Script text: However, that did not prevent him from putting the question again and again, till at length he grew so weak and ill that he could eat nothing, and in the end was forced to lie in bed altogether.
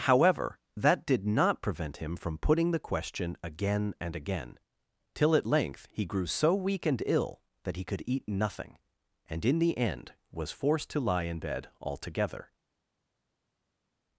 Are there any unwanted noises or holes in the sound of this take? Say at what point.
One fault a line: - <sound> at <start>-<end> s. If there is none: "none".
none